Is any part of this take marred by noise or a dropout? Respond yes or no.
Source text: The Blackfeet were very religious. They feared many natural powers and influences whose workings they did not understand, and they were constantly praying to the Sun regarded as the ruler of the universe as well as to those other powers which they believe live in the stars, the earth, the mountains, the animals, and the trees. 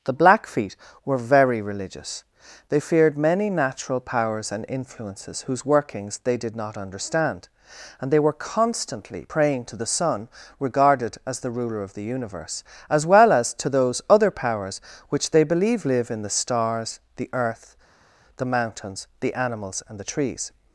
no